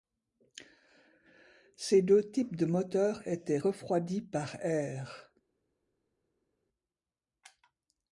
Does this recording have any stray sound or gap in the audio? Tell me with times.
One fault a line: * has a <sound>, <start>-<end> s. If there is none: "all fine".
all fine